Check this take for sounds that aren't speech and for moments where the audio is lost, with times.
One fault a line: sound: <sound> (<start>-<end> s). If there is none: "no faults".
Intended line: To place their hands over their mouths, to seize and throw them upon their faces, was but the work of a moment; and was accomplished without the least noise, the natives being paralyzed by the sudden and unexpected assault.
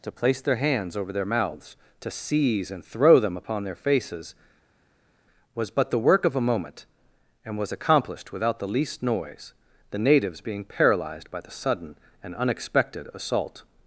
no faults